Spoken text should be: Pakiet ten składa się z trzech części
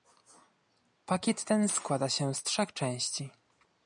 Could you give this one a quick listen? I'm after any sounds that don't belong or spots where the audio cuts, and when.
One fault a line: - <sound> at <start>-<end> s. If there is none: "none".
none